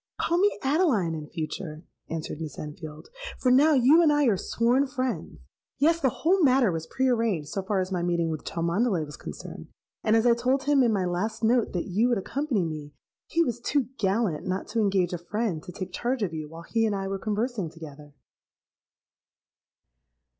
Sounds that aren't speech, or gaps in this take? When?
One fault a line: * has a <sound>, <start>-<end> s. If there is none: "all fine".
all fine